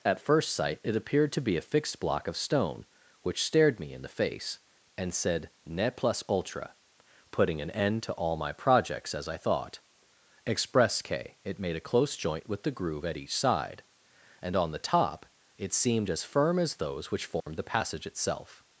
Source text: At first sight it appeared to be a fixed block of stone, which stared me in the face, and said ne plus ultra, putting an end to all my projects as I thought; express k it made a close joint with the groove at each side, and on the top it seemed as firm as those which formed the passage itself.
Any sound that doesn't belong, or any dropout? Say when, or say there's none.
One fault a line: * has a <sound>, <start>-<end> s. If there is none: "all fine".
* has a dropout, 17.4-17.5 s